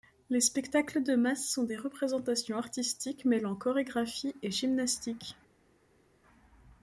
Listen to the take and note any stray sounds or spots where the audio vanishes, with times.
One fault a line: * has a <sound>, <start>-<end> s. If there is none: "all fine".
all fine